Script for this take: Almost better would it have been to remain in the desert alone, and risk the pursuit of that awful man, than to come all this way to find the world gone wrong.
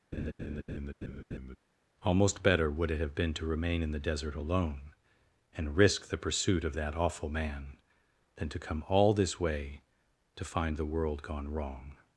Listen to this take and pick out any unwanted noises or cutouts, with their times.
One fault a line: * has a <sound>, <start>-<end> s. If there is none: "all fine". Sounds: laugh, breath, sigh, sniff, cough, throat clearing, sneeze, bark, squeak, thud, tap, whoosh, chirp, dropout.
* has a laugh, 0.1-1.6 s